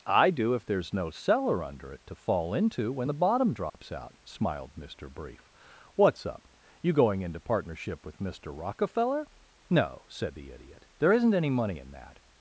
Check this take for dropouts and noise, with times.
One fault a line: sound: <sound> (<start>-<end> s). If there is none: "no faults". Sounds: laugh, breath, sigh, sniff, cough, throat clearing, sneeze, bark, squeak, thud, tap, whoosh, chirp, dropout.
sound: dropout (3.7-3.7 s)